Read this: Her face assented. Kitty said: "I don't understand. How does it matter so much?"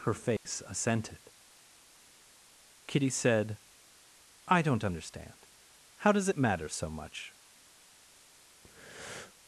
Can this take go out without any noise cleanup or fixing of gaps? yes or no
no